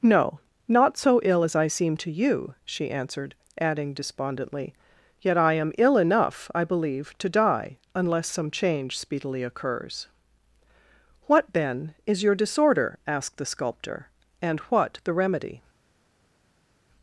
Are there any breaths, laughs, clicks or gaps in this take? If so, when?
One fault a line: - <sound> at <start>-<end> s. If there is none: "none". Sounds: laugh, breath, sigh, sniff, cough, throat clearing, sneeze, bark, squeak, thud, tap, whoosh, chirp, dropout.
none